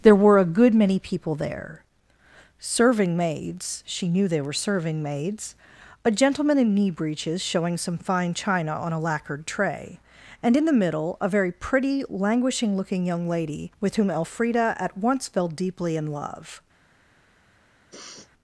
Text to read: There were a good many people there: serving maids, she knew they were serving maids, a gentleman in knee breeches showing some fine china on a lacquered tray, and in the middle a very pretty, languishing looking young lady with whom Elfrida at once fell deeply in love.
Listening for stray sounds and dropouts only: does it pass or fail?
fail